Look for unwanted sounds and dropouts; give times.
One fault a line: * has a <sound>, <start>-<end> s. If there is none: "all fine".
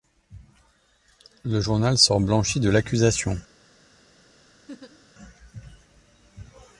* has a laugh, 4.7-5.1 s